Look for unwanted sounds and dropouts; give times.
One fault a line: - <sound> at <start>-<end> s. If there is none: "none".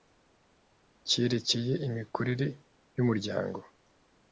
none